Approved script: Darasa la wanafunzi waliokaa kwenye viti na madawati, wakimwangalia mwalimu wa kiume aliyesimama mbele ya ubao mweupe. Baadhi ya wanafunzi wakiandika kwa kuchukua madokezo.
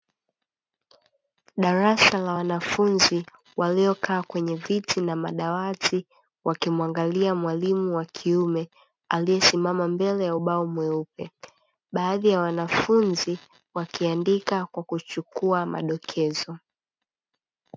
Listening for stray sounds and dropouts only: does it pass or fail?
pass